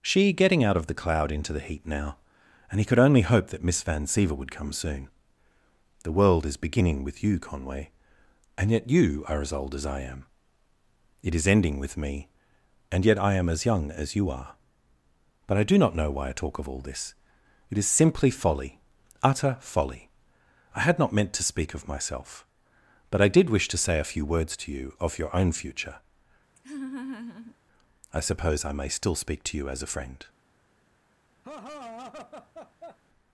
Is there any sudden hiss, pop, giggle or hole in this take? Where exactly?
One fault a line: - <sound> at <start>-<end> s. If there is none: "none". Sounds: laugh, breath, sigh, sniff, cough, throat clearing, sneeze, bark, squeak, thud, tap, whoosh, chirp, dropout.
- laugh at 26.6-27.6 s
- laugh at 31.4-33.0 s